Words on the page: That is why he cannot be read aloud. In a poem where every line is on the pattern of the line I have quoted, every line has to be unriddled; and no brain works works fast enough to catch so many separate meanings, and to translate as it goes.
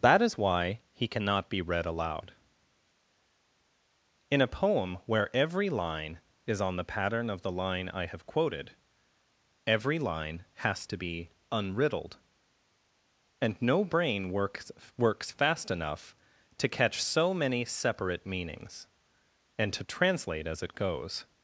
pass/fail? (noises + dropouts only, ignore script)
pass